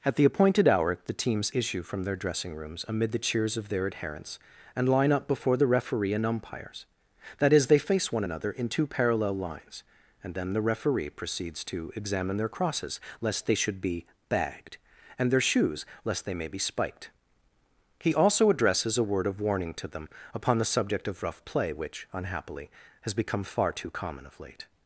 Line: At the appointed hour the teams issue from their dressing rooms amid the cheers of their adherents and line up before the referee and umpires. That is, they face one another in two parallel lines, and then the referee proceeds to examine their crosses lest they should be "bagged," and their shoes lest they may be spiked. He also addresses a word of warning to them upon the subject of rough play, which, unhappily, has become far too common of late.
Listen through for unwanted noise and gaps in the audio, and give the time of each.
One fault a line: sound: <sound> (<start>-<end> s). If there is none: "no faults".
no faults